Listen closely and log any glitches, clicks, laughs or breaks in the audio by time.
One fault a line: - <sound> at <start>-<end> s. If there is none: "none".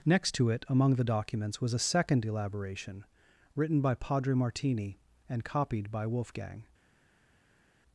none